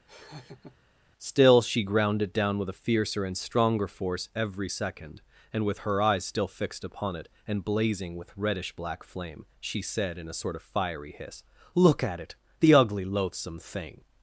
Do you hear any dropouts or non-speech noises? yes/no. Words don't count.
yes